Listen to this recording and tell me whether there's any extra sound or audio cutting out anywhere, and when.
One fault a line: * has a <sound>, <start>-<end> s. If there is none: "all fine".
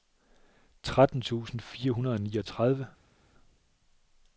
all fine